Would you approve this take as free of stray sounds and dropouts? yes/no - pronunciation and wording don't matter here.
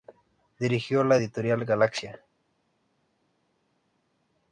yes